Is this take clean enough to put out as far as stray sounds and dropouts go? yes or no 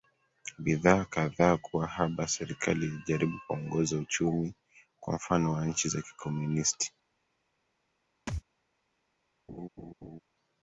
no